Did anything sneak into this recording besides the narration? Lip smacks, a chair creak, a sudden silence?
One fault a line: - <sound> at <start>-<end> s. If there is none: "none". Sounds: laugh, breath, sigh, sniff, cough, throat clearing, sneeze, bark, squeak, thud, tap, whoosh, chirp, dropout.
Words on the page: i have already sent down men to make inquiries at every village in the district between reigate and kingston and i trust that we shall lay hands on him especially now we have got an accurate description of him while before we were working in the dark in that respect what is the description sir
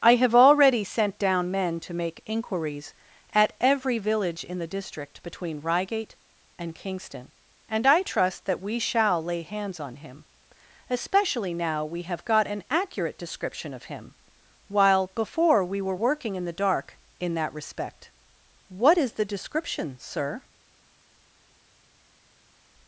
none